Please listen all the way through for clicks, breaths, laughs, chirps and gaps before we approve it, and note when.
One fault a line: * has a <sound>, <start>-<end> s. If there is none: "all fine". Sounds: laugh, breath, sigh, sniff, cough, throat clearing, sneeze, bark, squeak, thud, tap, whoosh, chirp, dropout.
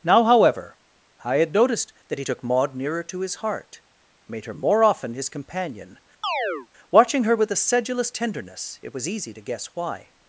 * has a chirp, 6.2-6.7 s